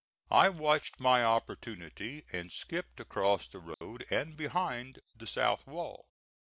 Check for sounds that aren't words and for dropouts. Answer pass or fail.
fail